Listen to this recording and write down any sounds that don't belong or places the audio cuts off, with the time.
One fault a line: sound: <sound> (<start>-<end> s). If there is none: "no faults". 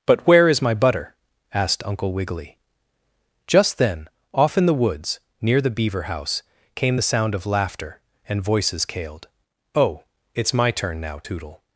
no faults